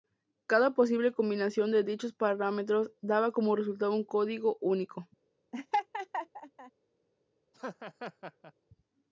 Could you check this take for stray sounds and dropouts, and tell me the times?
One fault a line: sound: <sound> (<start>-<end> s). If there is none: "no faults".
sound: laugh (5.5-6.7 s)
sound: laugh (7.5-8.5 s)